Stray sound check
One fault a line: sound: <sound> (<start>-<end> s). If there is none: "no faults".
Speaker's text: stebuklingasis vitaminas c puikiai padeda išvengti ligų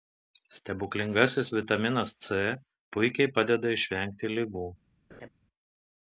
sound: laugh (5.1-5.3 s)